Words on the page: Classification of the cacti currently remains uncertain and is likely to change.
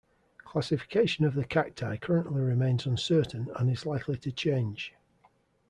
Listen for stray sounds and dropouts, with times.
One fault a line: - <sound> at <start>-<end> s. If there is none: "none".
none